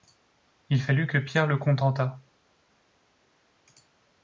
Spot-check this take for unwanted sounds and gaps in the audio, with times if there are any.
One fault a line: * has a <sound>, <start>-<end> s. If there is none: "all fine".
all fine